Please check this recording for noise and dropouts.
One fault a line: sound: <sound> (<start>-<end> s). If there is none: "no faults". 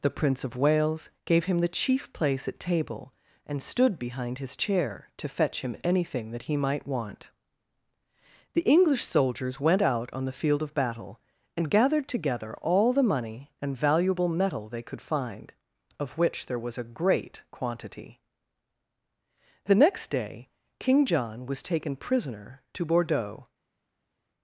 no faults